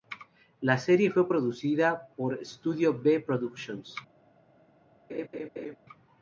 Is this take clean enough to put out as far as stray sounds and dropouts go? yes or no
no